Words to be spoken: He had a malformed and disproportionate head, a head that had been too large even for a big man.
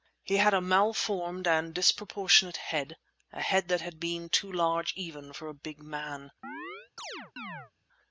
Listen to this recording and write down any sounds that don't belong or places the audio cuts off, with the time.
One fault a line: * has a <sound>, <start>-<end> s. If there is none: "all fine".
* has a chirp, 6.4-7.7 s